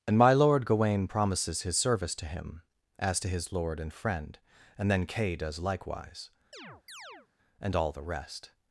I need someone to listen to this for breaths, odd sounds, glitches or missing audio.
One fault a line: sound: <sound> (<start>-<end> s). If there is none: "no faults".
sound: chirp (6.5-7.3 s)